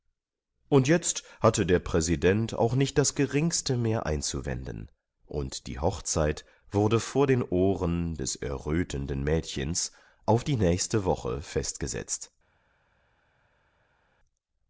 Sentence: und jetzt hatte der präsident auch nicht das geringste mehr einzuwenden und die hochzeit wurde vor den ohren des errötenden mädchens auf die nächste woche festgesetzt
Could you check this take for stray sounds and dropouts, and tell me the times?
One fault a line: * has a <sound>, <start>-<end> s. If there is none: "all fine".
all fine